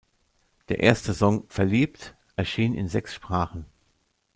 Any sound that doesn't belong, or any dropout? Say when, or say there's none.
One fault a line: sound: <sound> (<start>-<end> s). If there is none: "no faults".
no faults